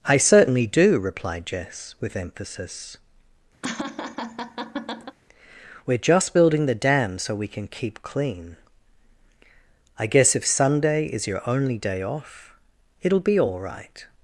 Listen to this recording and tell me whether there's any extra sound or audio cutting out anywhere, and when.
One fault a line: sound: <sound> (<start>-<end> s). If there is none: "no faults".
sound: laugh (3.6-5.2 s)